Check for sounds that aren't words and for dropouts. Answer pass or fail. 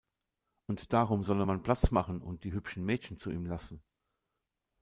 pass